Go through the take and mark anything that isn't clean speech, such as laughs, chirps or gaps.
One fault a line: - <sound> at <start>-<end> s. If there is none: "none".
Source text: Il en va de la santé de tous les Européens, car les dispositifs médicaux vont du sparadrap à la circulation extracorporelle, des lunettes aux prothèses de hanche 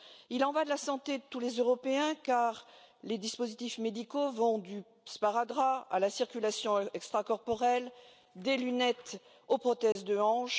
- dropout at 9.9-10.0 s